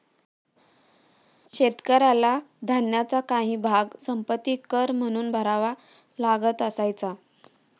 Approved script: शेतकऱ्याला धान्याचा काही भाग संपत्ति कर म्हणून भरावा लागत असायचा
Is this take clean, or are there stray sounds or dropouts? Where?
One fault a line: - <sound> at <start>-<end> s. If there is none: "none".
none